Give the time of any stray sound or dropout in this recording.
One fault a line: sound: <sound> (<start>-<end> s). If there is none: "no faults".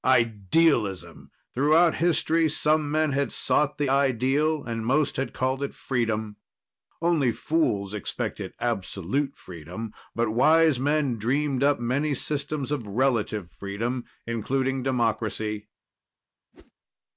sound: whoosh (16.5-16.7 s)